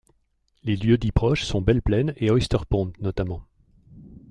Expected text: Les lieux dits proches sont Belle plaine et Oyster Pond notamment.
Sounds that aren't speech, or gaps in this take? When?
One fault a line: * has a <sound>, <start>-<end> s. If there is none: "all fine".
all fine